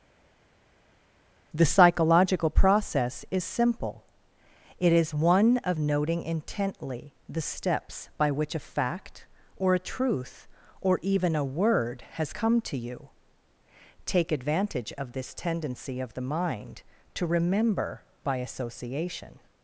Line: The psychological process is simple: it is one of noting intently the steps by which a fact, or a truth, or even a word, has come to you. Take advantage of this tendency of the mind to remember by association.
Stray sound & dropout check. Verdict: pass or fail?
pass